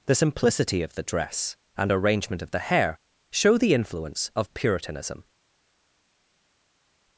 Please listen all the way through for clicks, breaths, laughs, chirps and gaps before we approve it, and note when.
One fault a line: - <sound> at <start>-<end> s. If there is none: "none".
none